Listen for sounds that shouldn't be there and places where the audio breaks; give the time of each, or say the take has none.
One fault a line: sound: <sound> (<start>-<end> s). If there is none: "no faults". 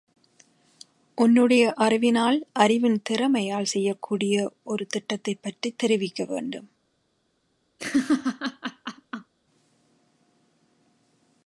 sound: laugh (7.8-9.3 s)